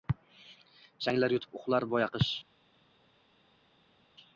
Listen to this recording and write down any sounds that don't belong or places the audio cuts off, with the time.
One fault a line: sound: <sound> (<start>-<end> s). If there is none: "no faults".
no faults